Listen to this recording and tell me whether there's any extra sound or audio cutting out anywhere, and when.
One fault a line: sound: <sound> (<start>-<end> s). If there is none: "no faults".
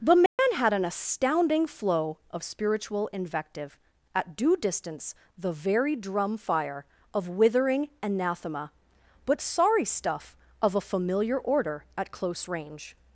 sound: dropout (0.3-0.4 s)